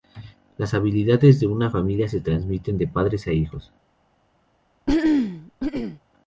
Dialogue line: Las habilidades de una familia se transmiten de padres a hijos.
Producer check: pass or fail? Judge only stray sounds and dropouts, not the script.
fail